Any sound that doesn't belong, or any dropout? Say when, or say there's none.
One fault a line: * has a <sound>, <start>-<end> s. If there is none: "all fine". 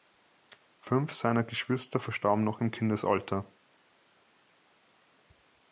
all fine